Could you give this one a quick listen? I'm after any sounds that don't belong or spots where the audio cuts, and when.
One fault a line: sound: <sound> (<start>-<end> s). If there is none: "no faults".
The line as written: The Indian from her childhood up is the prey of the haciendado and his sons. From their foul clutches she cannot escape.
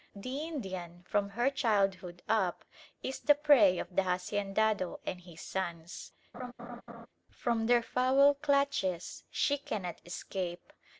sound: laugh (6.3-7.1 s)